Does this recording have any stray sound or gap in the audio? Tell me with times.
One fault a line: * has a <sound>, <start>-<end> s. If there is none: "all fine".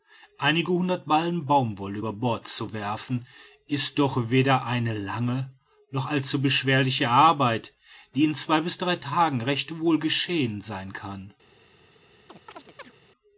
* has a chirp, 12.3-12.9 s